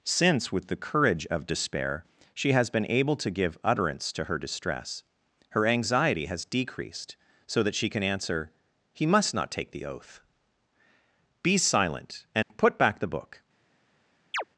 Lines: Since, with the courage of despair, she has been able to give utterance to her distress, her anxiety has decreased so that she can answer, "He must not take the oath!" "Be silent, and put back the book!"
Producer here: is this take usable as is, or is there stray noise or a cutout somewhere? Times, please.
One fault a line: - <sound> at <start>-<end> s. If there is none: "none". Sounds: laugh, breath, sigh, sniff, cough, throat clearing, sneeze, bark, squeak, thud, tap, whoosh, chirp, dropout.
- dropout at 12.4-12.5 s
- chirp at 14.3-14.4 s